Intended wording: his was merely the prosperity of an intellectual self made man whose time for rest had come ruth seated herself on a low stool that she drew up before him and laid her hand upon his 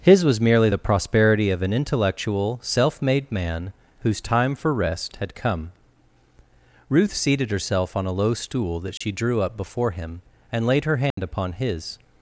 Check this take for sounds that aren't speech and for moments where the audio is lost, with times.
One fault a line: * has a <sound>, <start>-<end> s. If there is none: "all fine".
* has a dropout, 9.0-9.0 s
* has a dropout, 11.1-11.2 s